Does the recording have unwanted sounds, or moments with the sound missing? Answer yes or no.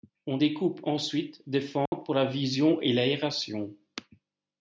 yes